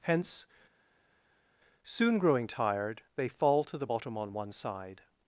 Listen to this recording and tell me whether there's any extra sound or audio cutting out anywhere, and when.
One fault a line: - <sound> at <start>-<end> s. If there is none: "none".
none